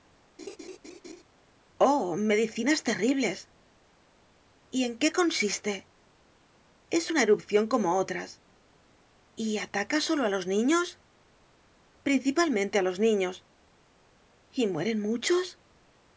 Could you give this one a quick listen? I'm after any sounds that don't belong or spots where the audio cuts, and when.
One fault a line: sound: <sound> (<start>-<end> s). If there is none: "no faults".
sound: laugh (0.4-1.2 s)